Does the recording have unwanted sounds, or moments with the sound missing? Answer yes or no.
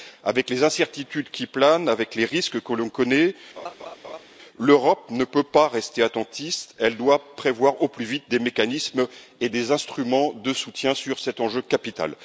yes